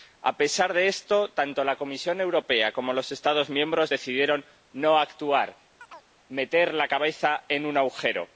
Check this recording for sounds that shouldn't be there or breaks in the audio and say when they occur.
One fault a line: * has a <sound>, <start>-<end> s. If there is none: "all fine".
* has a chirp, 5.8-6.1 s